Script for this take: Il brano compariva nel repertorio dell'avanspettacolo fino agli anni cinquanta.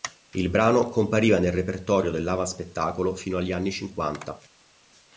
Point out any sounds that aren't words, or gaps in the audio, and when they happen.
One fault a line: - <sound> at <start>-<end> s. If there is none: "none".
none